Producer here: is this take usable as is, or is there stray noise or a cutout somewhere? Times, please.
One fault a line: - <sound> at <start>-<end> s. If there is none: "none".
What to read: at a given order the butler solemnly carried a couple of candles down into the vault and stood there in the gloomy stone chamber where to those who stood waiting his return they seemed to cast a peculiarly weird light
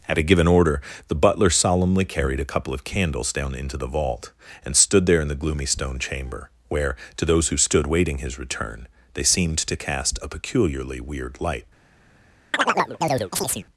- chirp at 12.5-13.7 s